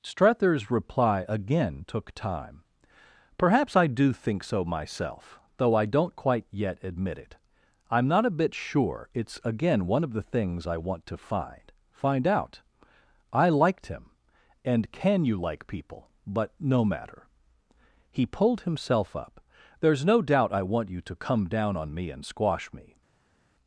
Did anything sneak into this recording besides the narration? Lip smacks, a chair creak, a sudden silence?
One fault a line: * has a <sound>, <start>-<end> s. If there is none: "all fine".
all fine